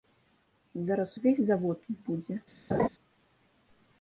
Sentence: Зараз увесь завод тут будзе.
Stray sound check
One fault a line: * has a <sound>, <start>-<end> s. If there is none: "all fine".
* has a laugh, 2.7-2.9 s